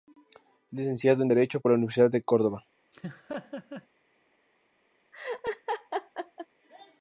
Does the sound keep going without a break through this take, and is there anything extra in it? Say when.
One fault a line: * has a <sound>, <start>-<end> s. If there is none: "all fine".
* has a laugh, 2.9-3.9 s
* has a laugh, 5.1-6.5 s